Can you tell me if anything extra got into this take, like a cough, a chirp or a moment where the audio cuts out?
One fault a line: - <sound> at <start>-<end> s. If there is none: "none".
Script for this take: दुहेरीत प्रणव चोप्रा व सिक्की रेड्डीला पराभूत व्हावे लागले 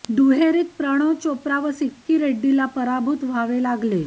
none